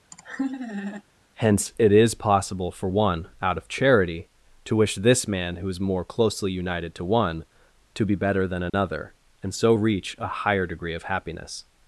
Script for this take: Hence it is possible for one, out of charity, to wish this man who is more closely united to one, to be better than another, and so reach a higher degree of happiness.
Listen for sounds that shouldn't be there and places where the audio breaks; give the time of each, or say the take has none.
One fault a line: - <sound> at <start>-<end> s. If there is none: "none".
- laugh at 0.1-1.0 s
- dropout at 8.7-8.7 s